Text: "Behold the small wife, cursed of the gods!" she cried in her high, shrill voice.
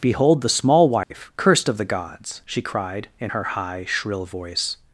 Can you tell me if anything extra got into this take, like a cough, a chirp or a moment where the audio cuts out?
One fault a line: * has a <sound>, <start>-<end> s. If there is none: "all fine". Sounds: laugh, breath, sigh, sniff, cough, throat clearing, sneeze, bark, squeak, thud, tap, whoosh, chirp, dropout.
* has a dropout, 1.0-1.1 s